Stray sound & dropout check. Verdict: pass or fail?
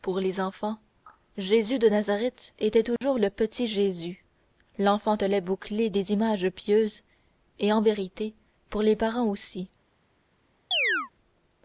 fail